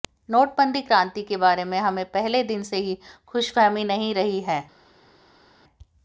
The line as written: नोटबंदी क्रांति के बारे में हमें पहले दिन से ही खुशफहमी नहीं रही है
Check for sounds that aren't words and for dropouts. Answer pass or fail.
pass